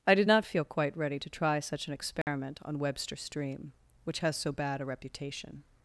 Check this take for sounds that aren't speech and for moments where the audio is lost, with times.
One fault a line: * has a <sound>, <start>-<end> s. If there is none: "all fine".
* has a dropout, 2.2-2.3 s